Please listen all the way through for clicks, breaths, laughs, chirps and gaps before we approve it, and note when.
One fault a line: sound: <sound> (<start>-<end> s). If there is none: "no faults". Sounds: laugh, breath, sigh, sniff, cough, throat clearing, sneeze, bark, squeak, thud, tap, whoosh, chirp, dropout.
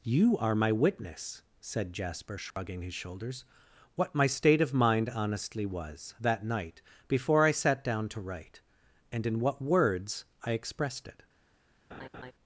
sound: dropout (2.5-2.6 s)
sound: laugh (11.9-12.3 s)